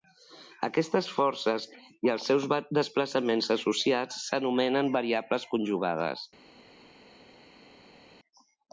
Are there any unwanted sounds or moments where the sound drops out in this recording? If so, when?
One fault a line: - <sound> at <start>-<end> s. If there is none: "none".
none